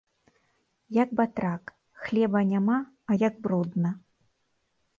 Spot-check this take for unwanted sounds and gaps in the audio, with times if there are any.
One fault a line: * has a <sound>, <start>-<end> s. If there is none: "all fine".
all fine